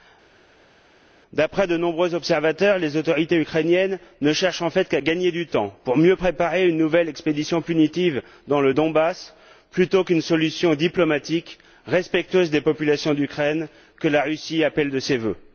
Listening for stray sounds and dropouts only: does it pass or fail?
pass